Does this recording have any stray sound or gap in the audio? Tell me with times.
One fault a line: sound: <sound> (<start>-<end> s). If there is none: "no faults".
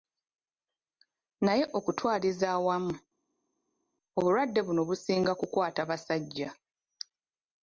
no faults